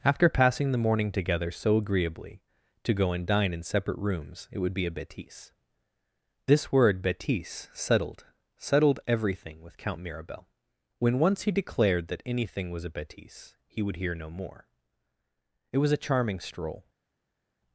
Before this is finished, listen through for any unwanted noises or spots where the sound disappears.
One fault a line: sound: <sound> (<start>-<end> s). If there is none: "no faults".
no faults